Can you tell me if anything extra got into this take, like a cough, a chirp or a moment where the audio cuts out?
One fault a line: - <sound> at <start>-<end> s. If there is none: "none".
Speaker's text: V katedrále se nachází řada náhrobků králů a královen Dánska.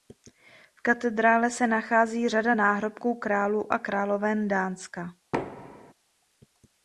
- thud at 5.3-5.9 s